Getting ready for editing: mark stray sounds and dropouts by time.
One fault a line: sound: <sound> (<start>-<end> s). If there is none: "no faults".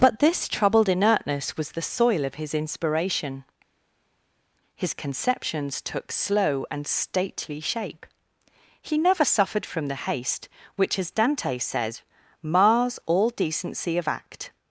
no faults